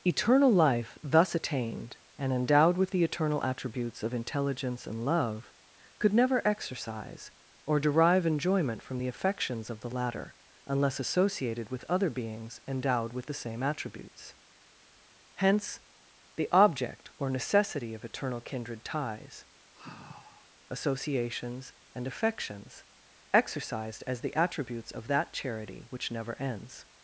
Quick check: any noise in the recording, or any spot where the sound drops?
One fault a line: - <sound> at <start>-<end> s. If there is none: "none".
- sigh at 19.7-20.5 s